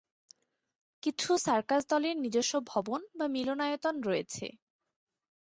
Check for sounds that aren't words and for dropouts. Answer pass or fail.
pass